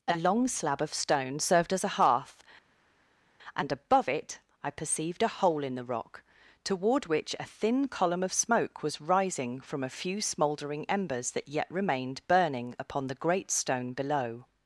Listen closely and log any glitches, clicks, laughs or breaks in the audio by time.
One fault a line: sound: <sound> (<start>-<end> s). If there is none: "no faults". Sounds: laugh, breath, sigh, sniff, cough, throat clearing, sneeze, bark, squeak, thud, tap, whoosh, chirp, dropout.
no faults